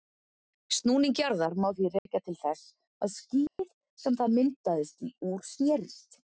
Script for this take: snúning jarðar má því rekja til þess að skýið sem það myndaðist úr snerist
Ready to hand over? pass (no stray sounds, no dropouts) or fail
fail